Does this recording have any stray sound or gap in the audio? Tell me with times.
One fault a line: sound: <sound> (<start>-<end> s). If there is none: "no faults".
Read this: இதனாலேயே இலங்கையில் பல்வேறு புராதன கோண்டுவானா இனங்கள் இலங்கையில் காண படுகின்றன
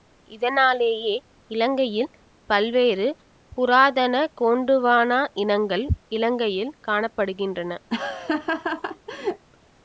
sound: laugh (7.9-9.5 s)